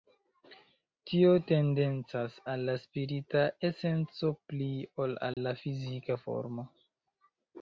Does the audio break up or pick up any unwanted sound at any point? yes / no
yes